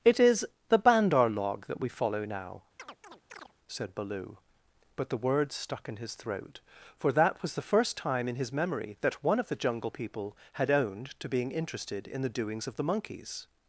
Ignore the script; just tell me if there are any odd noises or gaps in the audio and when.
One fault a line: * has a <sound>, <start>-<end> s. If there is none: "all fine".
* has a chirp, 2.8-3.5 s